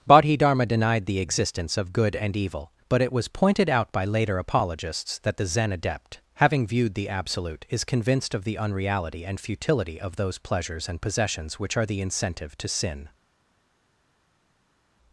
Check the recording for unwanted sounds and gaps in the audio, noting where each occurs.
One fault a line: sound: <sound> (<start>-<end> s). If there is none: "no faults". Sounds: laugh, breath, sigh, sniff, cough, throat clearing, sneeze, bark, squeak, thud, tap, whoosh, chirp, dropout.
no faults